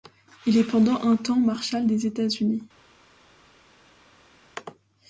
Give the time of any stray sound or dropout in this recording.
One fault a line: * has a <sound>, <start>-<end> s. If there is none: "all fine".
all fine